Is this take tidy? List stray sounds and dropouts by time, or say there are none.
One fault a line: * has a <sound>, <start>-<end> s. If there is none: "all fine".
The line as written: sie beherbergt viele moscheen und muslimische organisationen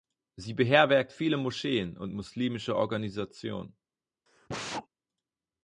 * has a sneeze, 4.3-4.9 s